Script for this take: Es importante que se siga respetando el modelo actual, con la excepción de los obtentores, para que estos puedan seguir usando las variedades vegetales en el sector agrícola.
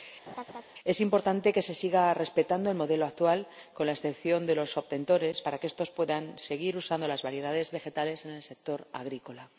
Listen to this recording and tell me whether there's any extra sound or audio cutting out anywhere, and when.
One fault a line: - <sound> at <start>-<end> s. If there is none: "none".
- laugh at 0.3-0.6 s